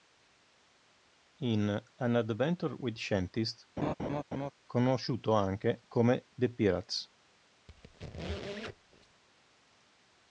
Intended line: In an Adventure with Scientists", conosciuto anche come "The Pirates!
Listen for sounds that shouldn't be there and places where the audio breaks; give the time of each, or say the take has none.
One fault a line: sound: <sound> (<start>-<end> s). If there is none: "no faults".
sound: laugh (3.8-4.5 s)
sound: squeak (7.7-9.2 s)